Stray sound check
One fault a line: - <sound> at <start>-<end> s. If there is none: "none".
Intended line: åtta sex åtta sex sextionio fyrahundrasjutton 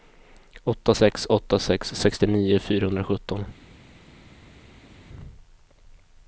none